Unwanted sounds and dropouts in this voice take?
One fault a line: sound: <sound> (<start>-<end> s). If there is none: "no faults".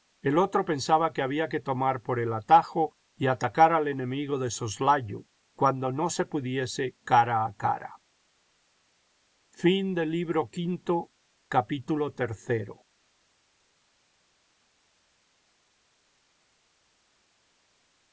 no faults